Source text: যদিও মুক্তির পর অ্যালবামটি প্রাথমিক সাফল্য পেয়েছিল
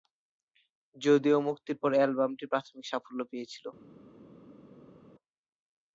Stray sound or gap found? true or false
false